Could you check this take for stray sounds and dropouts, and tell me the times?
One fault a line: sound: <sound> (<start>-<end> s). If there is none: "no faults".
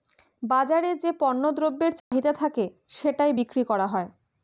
sound: dropout (2.0-2.1 s)